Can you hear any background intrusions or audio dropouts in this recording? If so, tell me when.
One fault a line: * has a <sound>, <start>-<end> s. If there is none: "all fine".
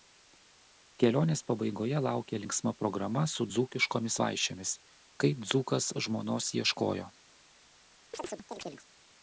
* has a chirp, 8.1-8.9 s